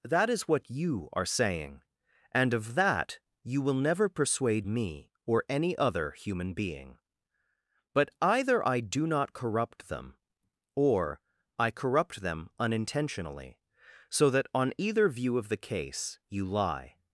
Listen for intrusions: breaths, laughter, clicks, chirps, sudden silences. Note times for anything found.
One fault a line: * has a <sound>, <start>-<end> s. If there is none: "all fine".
all fine